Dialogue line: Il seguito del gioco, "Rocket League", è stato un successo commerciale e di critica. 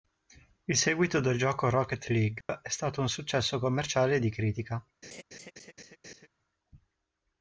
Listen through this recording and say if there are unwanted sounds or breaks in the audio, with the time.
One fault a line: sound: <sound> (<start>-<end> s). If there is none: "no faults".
sound: dropout (2.4-2.5 s)
sound: laugh (5.0-6.3 s)